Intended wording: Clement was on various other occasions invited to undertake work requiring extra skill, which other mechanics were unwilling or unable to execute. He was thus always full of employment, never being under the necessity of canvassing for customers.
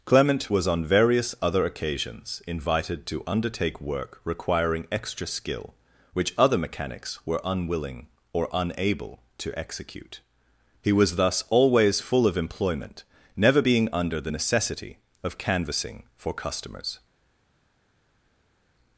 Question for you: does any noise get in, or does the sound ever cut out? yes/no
no